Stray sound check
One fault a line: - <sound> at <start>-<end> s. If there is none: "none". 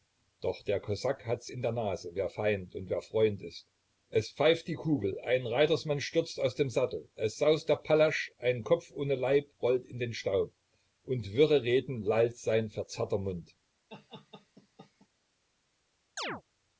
- laugh at 13.9-15.1 s
- chirp at 16.2-16.4 s